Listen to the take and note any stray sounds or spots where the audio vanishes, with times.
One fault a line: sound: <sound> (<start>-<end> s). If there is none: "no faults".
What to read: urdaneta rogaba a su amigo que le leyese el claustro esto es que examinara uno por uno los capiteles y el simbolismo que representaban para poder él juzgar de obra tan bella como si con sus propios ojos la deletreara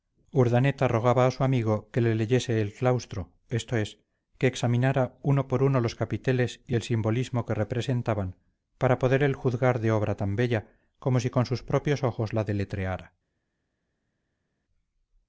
no faults